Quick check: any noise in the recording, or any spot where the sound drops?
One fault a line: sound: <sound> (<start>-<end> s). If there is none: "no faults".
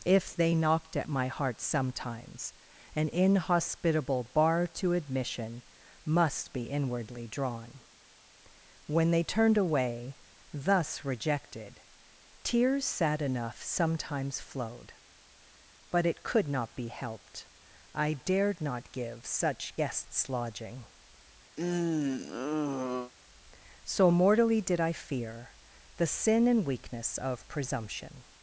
sound: sigh (21.6-23.1 s)